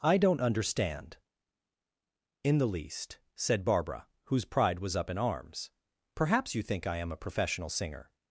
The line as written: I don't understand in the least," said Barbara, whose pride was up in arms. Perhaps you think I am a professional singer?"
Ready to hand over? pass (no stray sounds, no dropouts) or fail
pass